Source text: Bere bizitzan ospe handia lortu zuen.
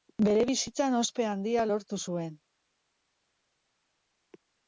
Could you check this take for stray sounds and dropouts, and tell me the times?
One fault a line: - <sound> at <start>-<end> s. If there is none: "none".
none